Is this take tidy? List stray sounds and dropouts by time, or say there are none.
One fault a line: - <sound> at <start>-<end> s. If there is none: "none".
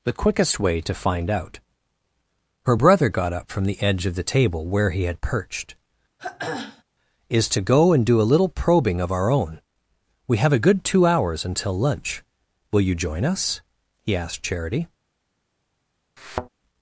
- throat clearing at 6.2-6.8 s
- thud at 16.2-16.5 s